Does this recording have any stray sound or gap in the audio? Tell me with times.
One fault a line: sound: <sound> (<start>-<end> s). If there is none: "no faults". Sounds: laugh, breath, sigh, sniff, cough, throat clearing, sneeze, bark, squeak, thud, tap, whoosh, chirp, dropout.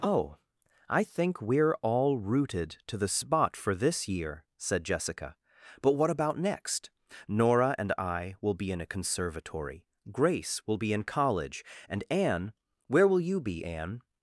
no faults